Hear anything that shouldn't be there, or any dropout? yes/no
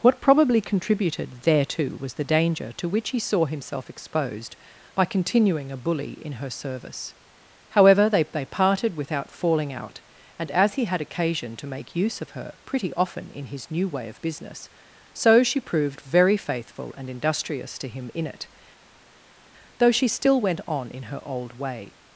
no